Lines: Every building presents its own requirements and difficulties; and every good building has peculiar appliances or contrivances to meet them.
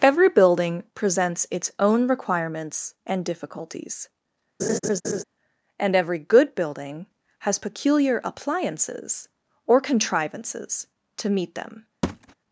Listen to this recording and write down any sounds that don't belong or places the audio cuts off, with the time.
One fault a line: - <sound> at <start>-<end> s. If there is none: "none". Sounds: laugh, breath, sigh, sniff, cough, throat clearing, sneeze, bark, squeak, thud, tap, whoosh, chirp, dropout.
- laugh at 4.6-5.2 s
- thud at 12.0-12.3 s